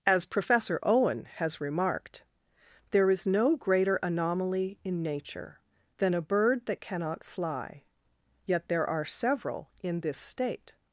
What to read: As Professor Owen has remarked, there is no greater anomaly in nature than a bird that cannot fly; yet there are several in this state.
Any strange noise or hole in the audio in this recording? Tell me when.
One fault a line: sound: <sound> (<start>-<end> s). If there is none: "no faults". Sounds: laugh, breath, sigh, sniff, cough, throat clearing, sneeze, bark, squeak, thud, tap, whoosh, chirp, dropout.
no faults